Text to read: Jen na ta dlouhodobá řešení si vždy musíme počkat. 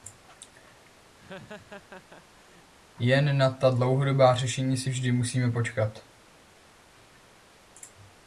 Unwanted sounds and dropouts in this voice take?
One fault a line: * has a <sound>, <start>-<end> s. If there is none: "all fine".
* has a laugh, 1.2-2.7 s